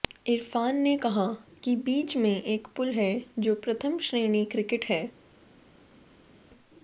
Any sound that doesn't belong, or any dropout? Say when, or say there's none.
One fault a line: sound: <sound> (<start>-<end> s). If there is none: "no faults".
no faults